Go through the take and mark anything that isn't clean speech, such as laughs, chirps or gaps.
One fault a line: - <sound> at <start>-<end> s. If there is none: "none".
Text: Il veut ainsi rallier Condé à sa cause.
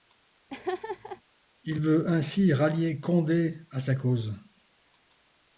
- laugh at 0.5-1.2 s